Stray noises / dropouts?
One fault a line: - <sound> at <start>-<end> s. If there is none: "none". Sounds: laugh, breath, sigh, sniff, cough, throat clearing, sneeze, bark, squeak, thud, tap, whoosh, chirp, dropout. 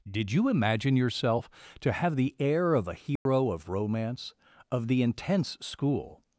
- dropout at 3.2-3.3 s